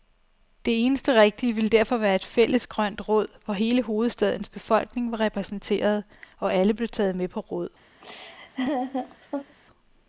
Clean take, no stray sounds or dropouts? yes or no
no